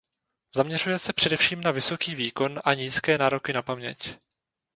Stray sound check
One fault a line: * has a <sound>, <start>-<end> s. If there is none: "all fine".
all fine